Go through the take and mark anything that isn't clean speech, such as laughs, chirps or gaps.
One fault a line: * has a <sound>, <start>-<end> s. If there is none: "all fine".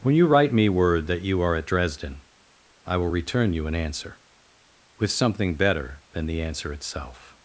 all fine